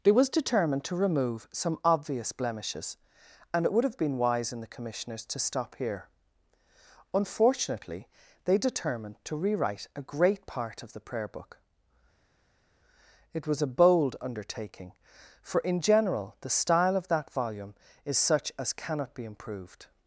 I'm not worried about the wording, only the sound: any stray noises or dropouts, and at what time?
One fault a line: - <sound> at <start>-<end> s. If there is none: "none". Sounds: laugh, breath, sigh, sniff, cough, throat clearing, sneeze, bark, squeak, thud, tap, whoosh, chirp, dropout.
none